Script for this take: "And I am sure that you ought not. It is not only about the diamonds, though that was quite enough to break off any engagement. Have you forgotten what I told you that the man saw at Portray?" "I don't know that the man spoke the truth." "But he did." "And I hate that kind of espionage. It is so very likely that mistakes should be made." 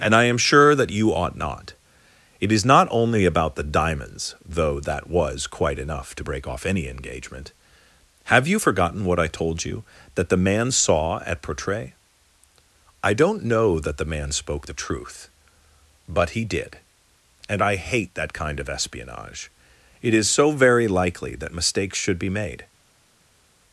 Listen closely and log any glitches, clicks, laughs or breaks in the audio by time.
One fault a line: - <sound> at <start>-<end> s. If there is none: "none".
none